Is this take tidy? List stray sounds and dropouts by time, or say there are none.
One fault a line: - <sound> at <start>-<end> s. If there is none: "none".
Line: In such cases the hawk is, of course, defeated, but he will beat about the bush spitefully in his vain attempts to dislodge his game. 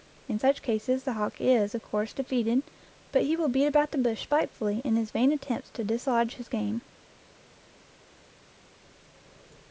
none